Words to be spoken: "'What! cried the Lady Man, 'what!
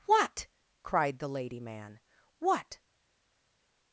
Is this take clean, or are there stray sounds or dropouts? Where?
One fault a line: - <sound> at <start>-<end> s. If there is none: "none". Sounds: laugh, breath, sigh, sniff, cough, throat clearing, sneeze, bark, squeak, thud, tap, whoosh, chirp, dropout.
none